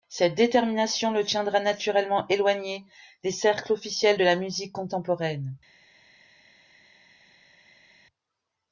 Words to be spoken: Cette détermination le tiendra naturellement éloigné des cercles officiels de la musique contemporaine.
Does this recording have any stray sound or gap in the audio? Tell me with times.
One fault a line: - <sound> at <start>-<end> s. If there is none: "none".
none